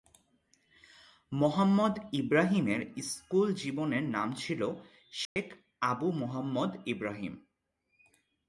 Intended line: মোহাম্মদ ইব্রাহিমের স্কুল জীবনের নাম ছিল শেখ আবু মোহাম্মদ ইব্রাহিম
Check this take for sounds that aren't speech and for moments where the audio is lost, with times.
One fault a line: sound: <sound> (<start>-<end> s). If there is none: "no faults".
sound: dropout (5.3-5.4 s)